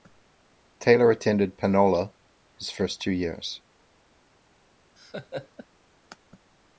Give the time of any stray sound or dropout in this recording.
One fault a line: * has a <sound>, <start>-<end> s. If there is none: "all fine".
* has a laugh, 5.0-5.7 s